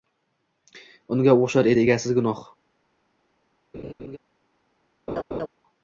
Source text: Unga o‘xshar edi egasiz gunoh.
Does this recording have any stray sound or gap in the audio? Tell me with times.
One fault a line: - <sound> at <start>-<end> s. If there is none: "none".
- laugh at 3.7-4.2 s
- laugh at 5.1-5.5 s